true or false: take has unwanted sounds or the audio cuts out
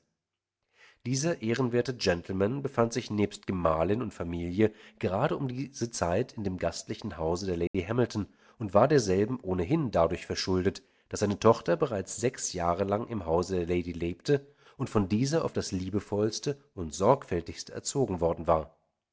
true